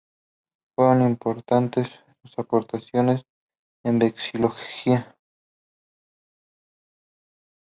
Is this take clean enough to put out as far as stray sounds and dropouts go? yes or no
yes